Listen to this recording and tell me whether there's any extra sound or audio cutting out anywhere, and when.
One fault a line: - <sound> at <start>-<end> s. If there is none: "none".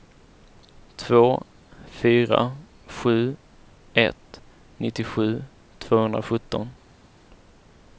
none